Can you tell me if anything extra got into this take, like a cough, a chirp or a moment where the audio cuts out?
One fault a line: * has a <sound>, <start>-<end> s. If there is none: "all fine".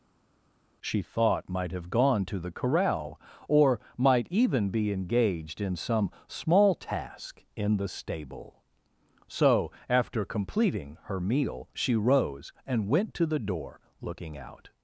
all fine